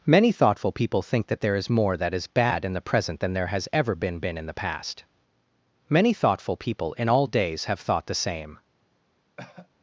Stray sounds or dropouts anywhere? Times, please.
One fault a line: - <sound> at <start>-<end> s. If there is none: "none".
- cough at 9.4-9.7 s